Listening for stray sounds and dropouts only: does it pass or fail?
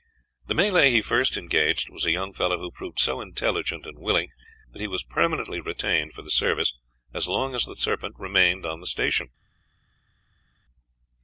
pass